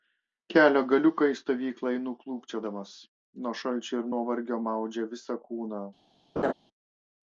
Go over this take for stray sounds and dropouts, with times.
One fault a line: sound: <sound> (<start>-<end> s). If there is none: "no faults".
sound: laugh (6.4-6.5 s)